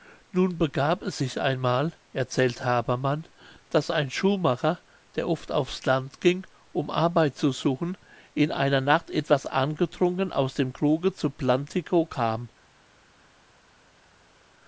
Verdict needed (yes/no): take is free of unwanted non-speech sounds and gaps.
yes